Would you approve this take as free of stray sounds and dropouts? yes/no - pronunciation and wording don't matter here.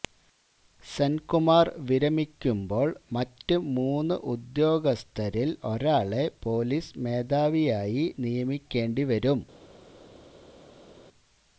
yes